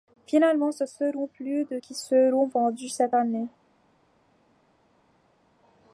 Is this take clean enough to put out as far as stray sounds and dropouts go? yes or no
yes